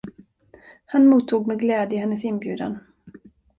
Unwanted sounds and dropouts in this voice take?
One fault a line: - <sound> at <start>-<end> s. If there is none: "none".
none